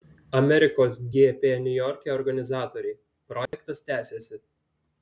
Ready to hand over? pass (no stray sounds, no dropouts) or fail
fail